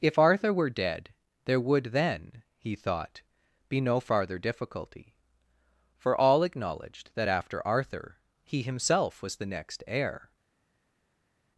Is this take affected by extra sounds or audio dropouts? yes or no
no